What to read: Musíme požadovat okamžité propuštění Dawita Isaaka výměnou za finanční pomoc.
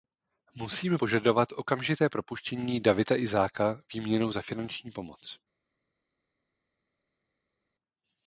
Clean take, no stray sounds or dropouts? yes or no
yes